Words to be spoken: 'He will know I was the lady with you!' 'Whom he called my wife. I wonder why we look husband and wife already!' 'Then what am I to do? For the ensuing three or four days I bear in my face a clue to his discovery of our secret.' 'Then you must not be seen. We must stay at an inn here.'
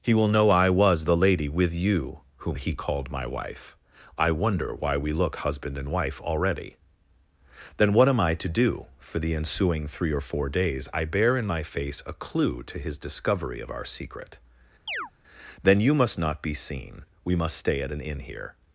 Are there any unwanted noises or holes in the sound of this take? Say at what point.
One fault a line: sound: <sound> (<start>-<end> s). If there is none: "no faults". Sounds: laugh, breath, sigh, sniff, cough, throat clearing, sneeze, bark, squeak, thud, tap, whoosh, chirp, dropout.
sound: chirp (14.9-15.1 s)